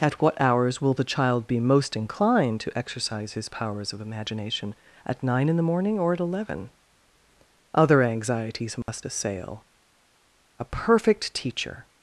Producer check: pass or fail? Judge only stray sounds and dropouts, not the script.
fail